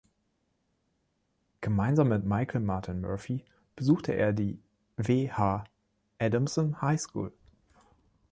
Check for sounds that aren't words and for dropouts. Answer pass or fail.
pass